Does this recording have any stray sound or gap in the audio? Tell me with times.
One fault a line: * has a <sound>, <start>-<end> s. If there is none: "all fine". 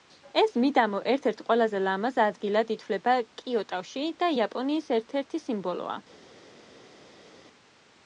all fine